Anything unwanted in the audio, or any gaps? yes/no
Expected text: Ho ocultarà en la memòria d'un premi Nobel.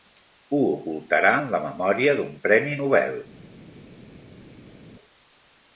no